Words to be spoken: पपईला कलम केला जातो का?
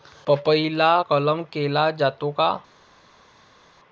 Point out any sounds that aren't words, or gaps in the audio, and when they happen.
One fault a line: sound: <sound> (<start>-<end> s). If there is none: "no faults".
no faults